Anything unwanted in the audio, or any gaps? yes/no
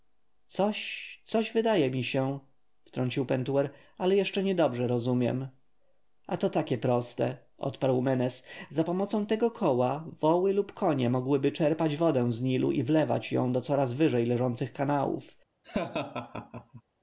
yes